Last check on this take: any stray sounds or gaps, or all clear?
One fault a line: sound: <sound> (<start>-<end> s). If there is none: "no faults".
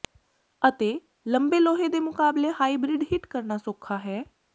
no faults